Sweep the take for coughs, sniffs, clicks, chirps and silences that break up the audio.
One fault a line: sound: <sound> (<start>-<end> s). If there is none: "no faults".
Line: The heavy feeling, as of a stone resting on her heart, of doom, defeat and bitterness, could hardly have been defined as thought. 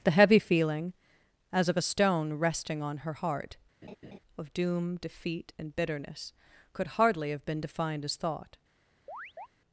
sound: laugh (3.8-4.2 s)
sound: chirp (9.1-9.5 s)